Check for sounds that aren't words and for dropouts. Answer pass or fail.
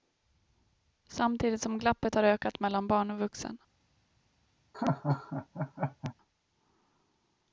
fail